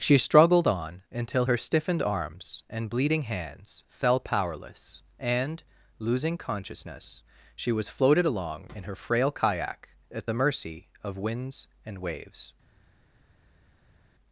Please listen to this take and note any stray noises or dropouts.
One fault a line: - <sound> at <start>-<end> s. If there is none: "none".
none